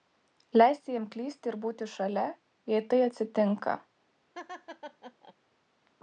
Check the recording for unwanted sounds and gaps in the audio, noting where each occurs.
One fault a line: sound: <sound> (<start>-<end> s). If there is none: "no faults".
sound: laugh (4.3-5.3 s)